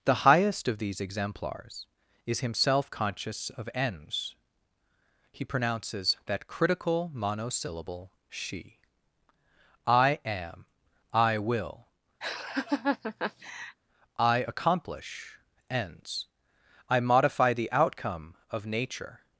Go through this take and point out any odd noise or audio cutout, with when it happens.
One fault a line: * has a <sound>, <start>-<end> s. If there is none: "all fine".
* has a laugh, 12.2-13.8 s